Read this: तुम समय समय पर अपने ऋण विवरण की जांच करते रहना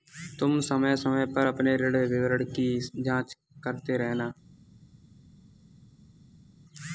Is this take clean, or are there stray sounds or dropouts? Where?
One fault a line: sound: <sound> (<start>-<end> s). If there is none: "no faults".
no faults